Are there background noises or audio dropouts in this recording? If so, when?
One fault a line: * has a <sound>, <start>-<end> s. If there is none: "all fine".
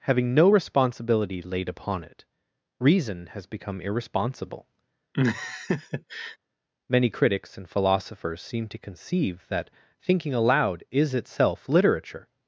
* has a laugh, 5.1-6.4 s